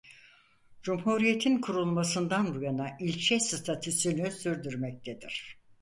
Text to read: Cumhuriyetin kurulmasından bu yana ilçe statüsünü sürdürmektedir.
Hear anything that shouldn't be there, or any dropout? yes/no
no